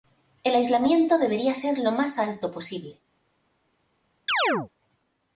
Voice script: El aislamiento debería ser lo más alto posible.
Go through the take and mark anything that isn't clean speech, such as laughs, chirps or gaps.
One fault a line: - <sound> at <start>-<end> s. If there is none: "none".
- chirp at 4.3-4.7 s